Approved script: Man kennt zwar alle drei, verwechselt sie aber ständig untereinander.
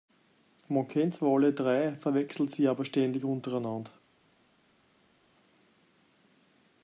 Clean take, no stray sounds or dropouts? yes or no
yes